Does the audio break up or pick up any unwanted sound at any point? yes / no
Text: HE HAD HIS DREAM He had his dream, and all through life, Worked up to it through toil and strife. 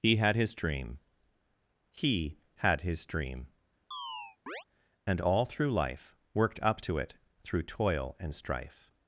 yes